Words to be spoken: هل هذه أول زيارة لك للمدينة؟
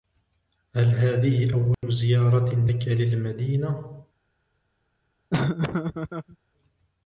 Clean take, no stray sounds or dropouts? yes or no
no